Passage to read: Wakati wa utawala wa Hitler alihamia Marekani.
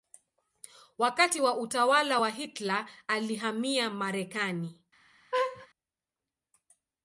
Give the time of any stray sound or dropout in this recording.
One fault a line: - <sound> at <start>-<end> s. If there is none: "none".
- laugh at 5.3-5.7 s